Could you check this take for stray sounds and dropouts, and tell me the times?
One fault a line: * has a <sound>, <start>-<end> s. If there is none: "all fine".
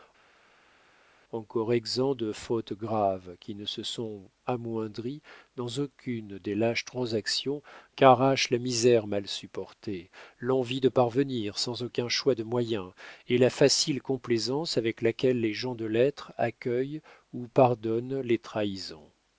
all fine